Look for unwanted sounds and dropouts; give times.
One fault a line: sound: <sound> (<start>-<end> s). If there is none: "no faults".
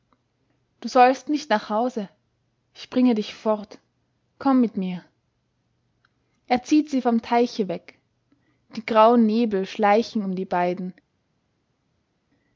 no faults